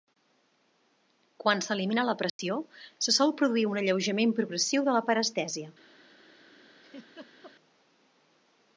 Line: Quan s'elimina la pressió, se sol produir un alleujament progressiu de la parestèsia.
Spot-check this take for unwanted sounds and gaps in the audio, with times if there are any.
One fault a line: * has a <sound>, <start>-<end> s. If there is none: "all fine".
* has a dropout, 2.3-2.4 s
* has a laugh, 6.8-7.5 s